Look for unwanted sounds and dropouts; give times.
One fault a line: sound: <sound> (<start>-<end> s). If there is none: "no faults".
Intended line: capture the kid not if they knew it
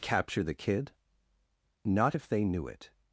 no faults